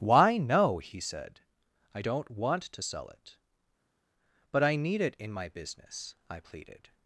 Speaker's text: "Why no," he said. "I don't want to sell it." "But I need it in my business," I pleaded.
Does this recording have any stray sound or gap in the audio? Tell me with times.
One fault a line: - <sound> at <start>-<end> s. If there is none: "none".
none